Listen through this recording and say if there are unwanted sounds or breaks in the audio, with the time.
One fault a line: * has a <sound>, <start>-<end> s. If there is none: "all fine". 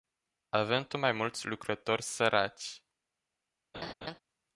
* has a laugh, 3.7-4.2 s